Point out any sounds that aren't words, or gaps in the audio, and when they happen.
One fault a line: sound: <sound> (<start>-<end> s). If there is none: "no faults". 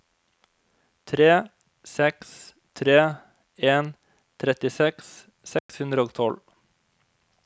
sound: dropout (5.6-5.7 s)